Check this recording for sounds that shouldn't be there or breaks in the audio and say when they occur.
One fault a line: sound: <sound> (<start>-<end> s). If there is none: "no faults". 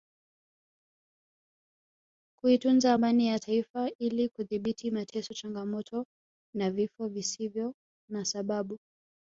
no faults